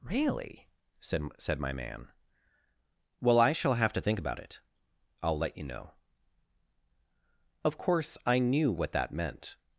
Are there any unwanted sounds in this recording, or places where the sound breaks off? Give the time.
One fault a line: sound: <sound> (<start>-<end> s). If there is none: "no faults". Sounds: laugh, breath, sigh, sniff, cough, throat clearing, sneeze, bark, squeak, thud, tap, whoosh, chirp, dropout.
no faults